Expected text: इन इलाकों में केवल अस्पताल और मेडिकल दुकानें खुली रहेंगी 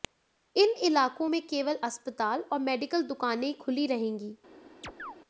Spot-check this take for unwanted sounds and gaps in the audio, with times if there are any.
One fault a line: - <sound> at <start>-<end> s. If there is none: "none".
- chirp at 4.8-5.2 s